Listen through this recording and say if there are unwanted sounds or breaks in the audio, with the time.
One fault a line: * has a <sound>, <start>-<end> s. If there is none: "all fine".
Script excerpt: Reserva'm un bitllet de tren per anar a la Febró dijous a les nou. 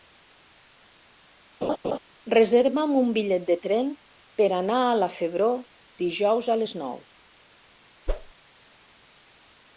* has a laugh, 1.6-2.0 s
* has a whoosh, 8.1-8.3 s